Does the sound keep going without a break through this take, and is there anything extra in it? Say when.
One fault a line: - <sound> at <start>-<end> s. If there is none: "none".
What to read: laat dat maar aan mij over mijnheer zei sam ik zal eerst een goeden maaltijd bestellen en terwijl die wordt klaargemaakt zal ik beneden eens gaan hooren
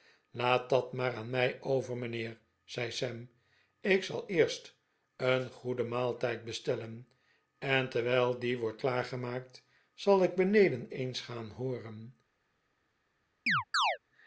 - chirp at 13.5-14.0 s